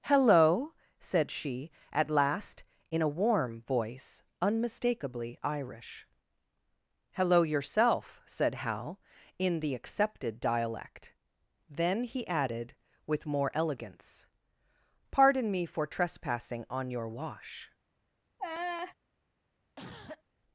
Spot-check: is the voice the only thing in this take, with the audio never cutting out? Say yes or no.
no